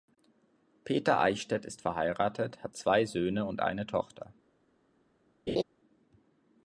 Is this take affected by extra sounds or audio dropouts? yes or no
yes